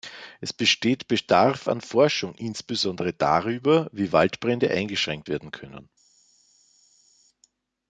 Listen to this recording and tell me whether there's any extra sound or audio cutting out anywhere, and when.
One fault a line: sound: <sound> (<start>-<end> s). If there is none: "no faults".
no faults